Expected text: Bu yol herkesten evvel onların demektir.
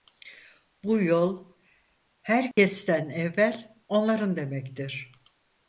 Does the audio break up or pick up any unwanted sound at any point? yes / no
yes